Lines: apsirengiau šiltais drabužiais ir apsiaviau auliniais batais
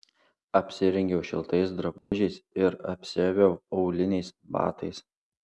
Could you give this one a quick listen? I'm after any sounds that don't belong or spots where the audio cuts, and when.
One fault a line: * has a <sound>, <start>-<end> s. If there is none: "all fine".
* has a dropout, 2.0-2.1 s